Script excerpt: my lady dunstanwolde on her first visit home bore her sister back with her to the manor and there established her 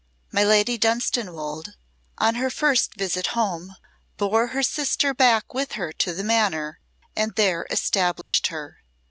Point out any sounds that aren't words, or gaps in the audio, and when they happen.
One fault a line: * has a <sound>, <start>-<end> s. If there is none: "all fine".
* has a dropout, 8.2-8.3 s